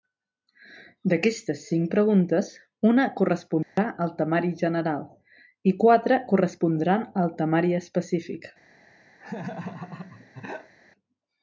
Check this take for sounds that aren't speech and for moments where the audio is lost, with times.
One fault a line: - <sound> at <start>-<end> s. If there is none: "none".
- dropout at 3.6-3.8 s
- laugh at 9.2-10.7 s